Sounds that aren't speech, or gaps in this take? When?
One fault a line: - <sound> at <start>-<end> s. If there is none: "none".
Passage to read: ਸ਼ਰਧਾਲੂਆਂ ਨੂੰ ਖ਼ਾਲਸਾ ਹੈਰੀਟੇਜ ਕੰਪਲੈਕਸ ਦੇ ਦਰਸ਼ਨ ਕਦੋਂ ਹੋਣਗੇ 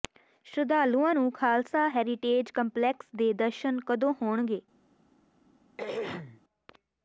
- throat clearing at 5.8-6.4 s